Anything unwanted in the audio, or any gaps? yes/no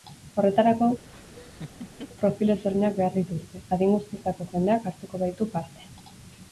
yes